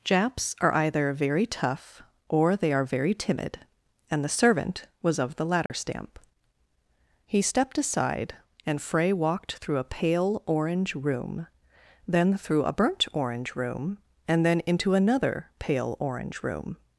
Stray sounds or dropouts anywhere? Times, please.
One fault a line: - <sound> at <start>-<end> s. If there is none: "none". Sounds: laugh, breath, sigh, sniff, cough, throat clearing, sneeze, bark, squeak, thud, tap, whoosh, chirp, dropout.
- dropout at 5.7-5.7 s